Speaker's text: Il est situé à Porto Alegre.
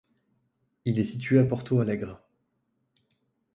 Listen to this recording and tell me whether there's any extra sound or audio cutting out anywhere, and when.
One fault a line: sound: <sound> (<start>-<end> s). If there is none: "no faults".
no faults